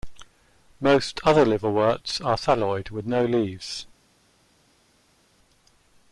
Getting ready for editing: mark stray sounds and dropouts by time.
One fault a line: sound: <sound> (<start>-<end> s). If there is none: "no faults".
no faults